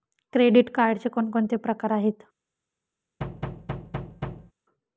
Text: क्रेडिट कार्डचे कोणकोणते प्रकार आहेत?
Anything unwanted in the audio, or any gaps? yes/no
yes